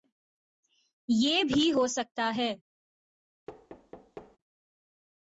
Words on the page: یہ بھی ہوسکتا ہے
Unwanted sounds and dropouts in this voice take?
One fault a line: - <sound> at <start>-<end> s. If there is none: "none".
- thud at 3.5-4.4 s